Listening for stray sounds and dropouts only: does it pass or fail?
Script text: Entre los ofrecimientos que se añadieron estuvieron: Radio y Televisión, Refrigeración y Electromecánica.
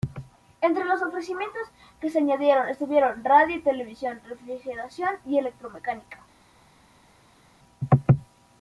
pass